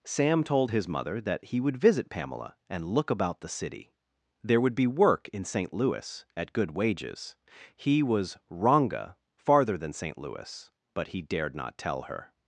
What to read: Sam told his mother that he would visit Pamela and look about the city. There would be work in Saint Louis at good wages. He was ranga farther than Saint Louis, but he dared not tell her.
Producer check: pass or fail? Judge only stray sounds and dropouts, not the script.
pass